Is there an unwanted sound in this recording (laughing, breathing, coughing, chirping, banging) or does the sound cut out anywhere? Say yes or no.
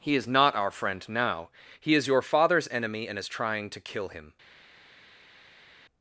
no